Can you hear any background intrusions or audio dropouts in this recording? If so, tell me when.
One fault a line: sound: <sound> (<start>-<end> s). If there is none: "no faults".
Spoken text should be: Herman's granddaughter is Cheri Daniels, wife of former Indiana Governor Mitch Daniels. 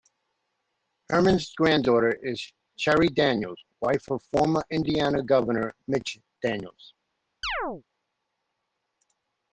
sound: chirp (7.4-7.8 s)